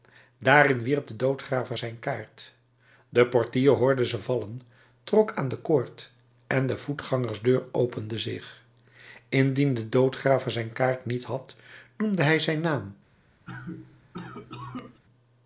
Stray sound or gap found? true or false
true